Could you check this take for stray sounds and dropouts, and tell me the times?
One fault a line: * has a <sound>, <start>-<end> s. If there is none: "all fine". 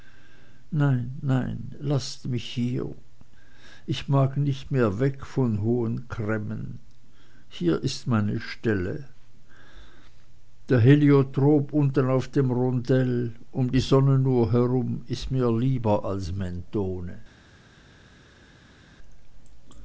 all fine